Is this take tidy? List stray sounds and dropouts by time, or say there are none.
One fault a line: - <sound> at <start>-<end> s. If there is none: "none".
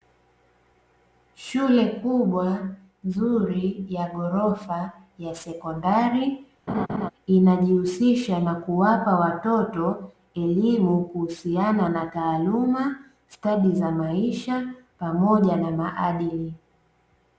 - laugh at 6.7-7.1 s